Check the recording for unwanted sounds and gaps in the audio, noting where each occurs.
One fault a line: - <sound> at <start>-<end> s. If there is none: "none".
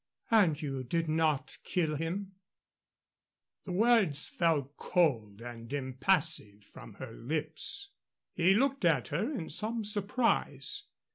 none